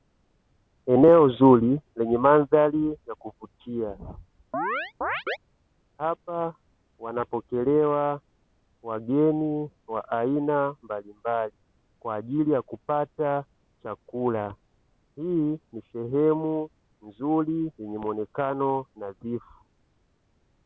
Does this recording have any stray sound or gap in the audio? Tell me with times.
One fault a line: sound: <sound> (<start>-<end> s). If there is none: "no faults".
sound: chirp (4.5-5.4 s)